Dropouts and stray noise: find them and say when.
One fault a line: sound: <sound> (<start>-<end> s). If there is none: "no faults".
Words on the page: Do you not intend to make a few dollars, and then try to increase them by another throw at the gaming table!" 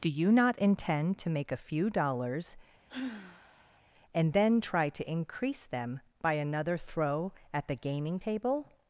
sound: sigh (2.9-3.8 s)